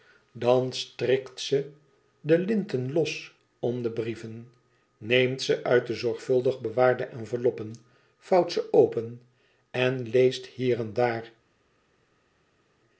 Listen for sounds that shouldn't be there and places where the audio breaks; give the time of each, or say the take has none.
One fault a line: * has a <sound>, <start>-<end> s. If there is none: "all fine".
all fine